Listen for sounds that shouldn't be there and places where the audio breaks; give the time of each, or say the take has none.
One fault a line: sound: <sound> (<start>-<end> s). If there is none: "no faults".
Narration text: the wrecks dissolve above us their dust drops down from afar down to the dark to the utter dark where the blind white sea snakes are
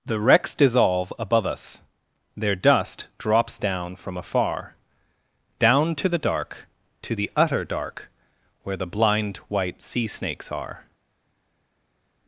no faults